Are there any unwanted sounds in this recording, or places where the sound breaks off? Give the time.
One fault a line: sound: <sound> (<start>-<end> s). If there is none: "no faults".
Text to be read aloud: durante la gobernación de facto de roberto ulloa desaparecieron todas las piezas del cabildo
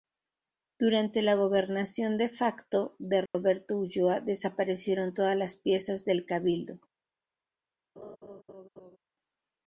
sound: dropout (3.3-3.3 s)
sound: laugh (8.0-9.0 s)